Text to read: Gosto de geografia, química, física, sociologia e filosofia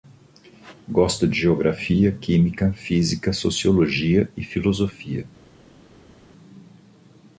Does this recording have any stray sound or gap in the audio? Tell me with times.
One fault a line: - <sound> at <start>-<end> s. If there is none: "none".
none